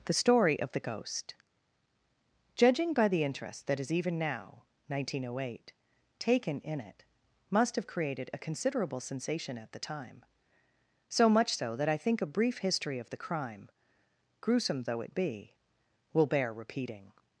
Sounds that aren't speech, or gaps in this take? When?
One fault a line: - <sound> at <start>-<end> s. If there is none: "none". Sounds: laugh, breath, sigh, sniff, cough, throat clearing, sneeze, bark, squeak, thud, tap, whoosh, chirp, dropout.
none